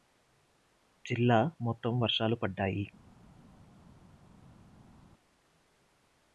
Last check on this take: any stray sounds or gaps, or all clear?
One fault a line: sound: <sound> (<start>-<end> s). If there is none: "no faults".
no faults